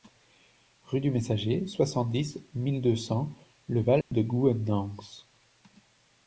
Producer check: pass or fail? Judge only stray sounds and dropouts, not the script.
fail